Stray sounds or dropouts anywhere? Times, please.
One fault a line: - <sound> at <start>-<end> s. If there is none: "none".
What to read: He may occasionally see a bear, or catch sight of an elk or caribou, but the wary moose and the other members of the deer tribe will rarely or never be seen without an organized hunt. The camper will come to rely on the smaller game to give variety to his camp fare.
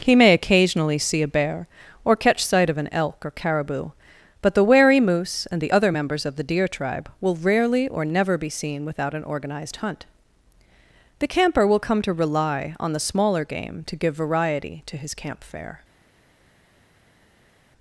none